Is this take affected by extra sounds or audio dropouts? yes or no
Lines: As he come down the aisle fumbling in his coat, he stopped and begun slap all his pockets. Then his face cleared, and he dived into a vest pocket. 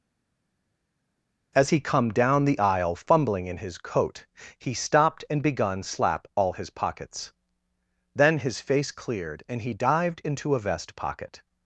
no